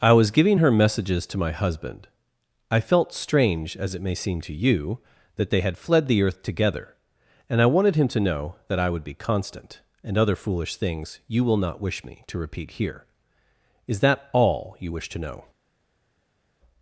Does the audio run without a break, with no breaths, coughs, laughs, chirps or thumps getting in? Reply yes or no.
yes